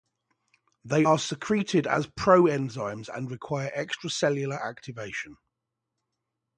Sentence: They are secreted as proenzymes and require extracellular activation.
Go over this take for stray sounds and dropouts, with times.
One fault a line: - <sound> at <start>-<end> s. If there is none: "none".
none